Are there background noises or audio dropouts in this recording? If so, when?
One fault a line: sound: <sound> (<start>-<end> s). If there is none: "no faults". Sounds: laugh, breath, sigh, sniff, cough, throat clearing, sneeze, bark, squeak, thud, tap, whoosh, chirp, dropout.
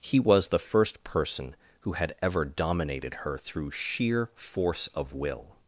no faults